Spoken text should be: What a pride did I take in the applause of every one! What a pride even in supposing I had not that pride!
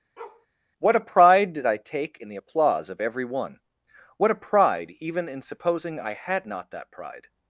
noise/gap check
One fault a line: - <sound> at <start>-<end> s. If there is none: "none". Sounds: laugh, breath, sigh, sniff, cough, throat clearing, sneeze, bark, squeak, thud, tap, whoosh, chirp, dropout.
- bark at 0.2-0.5 s